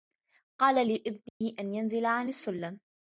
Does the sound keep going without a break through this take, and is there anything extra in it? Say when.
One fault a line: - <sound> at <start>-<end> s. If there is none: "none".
- dropout at 1.3-1.4 s